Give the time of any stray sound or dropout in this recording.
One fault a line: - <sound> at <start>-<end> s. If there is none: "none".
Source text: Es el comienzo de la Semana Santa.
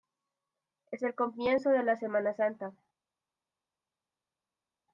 none